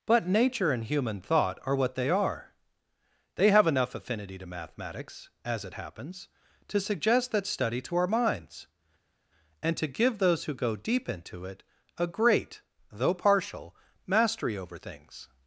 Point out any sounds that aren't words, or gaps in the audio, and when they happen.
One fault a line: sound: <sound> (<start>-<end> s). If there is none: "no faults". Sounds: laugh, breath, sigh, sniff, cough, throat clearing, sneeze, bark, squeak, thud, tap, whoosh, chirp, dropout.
no faults